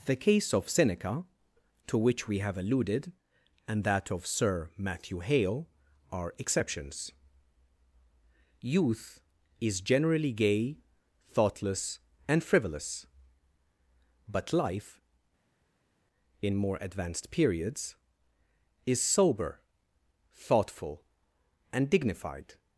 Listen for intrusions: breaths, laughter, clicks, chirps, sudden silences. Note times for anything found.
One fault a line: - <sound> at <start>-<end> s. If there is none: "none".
none